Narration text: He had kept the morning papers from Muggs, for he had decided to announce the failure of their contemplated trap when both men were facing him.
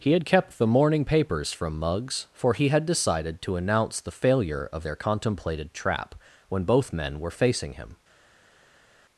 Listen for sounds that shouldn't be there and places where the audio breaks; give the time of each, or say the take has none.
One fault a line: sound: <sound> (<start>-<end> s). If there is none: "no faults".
no faults